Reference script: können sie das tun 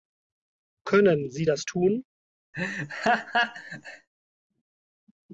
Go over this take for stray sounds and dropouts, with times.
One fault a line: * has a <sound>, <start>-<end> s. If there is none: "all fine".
* has a laugh, 2.5-4.1 s